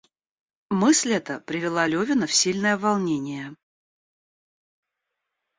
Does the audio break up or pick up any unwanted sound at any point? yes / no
no